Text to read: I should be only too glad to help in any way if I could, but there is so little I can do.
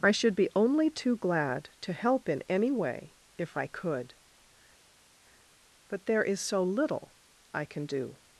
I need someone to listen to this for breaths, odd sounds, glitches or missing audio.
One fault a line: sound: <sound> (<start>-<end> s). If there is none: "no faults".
no faults